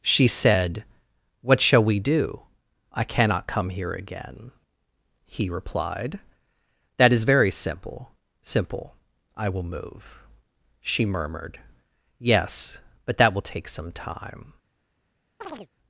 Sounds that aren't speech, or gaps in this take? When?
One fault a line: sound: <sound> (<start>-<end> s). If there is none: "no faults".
sound: chirp (15.4-15.7 s)